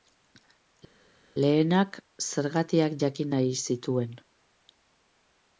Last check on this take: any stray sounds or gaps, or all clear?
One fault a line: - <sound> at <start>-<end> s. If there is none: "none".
none